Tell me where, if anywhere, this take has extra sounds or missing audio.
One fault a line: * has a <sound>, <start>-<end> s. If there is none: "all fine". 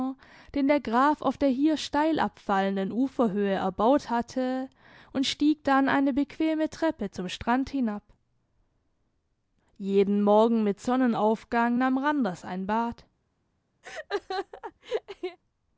* has a laugh, 13.8-15.4 s